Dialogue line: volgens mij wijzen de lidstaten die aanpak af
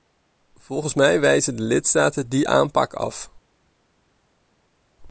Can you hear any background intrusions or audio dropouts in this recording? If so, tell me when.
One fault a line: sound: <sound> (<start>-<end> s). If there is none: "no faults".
no faults